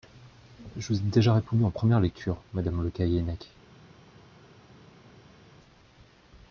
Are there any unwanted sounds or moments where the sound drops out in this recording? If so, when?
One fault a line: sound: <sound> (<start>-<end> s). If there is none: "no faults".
no faults